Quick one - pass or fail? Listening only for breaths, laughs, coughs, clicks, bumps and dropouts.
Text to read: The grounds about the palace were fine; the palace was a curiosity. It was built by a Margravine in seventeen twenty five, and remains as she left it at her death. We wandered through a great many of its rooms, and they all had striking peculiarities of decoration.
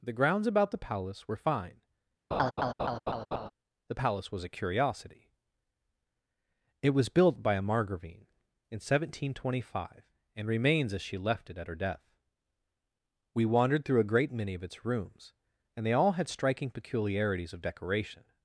fail